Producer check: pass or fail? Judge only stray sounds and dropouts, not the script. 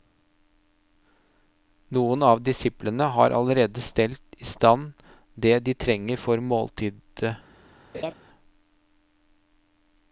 fail